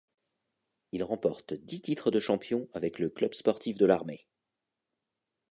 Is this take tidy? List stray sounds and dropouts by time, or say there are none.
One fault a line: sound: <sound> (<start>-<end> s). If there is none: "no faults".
no faults